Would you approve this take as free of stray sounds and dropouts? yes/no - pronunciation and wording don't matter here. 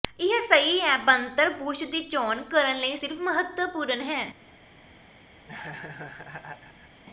no